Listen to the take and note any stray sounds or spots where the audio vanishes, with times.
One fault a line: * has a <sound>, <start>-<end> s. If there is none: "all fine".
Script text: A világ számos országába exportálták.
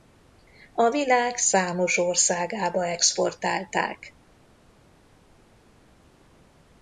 all fine